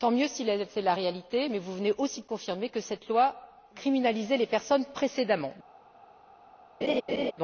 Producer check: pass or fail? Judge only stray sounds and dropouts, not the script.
fail